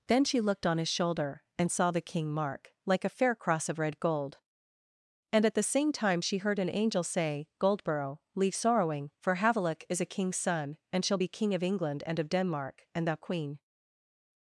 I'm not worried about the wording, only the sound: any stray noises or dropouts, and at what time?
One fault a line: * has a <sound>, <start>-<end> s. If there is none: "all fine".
all fine